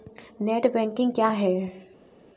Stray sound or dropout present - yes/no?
no